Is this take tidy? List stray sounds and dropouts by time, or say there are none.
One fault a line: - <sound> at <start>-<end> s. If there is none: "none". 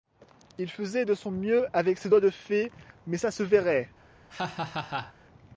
- laugh at 4.3-5.1 s